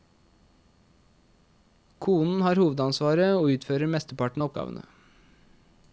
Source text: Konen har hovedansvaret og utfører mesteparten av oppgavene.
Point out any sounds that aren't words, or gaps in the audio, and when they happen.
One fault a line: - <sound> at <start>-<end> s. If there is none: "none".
none